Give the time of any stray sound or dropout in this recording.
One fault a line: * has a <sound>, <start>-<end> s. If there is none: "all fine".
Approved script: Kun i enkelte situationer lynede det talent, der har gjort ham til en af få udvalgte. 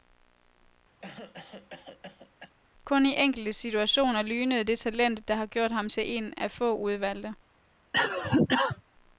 * has a cough, 1.0-2.5 s
* has a cough, 7.9-8.8 s